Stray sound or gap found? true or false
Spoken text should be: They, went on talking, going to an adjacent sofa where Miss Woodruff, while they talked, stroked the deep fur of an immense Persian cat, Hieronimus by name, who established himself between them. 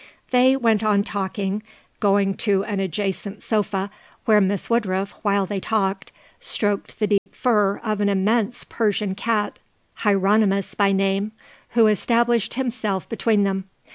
true